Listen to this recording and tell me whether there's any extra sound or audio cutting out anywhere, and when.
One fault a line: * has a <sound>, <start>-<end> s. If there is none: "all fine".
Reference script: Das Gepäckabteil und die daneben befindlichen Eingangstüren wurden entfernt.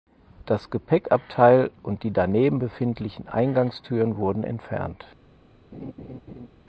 * has a laugh, 5.7-6.5 s